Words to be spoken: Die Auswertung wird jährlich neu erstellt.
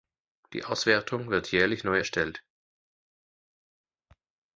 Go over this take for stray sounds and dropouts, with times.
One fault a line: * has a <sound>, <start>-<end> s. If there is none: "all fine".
all fine